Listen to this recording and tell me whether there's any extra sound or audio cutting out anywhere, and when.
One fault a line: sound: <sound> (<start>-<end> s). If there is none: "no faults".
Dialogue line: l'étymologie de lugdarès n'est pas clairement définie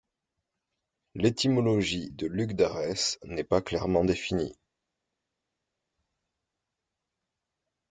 no faults